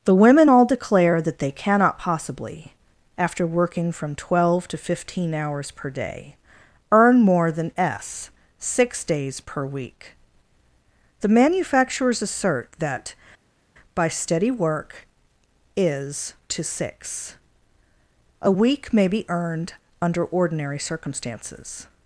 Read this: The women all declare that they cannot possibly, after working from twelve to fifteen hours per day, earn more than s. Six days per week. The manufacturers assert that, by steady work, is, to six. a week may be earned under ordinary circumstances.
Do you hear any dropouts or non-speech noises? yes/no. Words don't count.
no